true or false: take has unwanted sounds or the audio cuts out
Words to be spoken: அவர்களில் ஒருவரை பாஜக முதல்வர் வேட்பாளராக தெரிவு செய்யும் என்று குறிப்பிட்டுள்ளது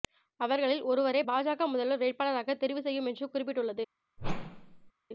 true